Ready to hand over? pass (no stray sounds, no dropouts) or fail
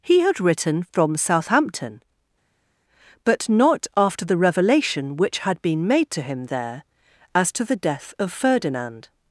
pass